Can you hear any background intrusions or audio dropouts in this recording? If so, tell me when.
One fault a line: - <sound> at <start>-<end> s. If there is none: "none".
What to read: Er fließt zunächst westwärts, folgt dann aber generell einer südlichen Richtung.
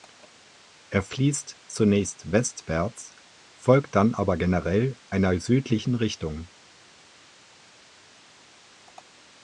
none